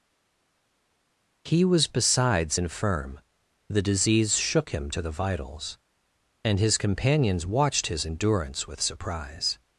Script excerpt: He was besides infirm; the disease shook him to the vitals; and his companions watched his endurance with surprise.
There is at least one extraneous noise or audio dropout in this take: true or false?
false